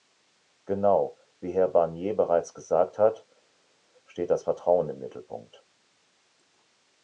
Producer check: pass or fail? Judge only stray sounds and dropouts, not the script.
pass